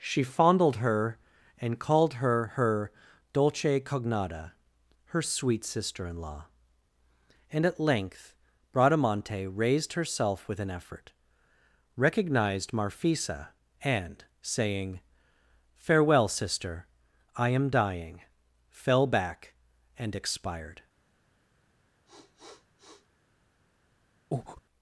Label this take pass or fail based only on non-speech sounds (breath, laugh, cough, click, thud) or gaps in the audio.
fail